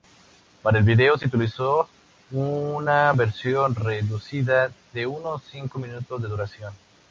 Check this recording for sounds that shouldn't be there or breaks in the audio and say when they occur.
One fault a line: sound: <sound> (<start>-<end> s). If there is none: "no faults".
no faults